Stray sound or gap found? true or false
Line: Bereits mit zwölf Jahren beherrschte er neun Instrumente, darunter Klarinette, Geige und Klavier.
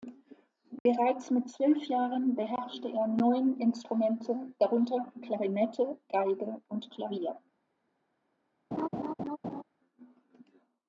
true